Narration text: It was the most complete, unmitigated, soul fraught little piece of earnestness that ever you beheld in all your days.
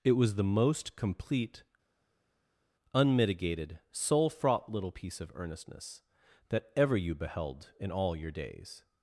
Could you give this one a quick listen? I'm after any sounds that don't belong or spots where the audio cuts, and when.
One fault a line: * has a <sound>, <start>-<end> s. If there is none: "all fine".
all fine